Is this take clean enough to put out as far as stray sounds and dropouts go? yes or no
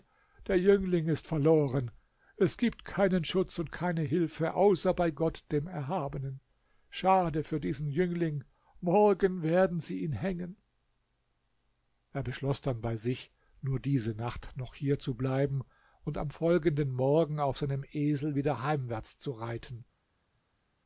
yes